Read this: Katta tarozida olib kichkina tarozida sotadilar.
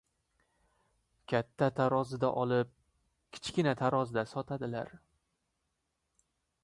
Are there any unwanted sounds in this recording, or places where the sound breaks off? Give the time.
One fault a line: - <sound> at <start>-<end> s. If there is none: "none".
none